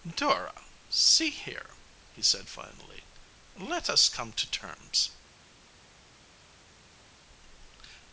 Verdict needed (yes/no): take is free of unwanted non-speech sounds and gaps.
yes